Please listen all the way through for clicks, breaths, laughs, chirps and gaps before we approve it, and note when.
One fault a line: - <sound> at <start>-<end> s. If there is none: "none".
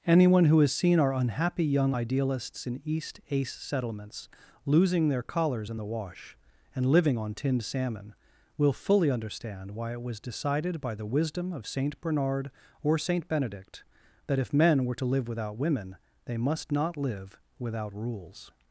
none